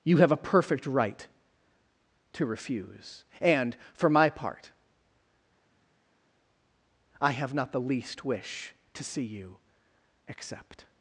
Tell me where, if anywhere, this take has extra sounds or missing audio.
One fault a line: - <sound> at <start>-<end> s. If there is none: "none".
none